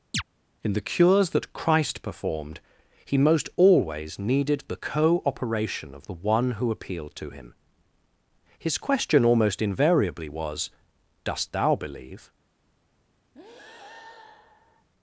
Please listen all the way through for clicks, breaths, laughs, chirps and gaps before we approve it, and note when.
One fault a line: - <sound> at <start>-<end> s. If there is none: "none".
- chirp at 0.1-0.2 s
- breath at 13.3-14.9 s